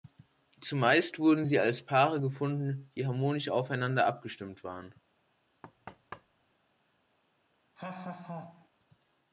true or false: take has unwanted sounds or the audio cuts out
true